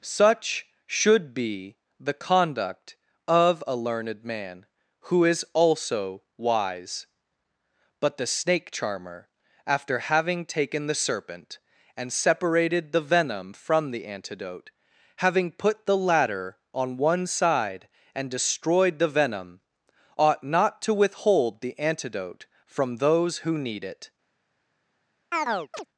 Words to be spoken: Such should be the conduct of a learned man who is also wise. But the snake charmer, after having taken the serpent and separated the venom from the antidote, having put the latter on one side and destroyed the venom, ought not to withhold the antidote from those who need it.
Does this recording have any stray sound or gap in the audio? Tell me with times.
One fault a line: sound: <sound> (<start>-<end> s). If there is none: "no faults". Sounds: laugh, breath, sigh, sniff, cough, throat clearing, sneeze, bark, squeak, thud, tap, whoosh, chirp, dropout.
sound: chirp (25.3-25.9 s)